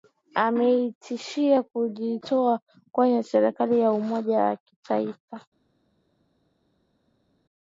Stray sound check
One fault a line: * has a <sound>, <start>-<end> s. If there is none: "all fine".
all fine